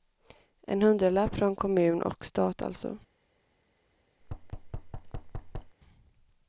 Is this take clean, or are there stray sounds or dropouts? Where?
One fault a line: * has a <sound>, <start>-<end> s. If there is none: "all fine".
* has a thud, 4.2-5.8 s